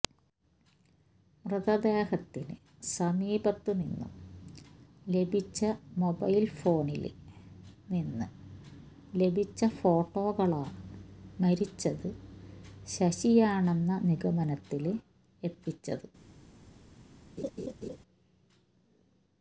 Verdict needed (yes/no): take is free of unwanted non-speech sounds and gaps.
no